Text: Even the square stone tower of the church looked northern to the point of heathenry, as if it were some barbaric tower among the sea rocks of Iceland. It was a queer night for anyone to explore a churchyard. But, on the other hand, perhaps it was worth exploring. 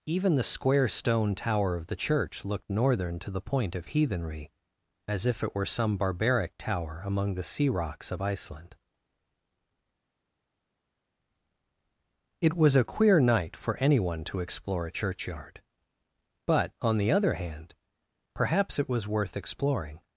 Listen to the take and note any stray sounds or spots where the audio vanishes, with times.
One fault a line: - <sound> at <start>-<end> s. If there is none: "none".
none